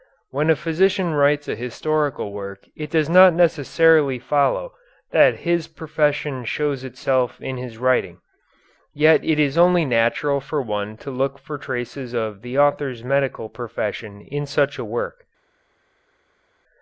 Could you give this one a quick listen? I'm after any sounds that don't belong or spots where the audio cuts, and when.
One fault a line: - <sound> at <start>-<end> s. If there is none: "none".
none